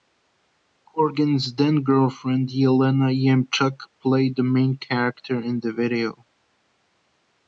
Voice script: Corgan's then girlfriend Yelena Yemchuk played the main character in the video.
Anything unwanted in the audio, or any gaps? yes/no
no